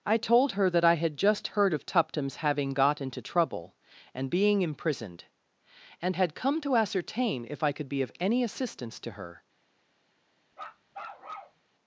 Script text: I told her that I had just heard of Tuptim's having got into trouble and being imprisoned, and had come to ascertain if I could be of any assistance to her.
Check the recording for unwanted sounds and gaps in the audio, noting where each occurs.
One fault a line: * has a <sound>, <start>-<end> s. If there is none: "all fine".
* has a bark, 10.5-11.6 s